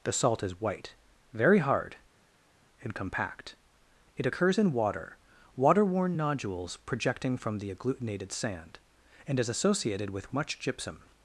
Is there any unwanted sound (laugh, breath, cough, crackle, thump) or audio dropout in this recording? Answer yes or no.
no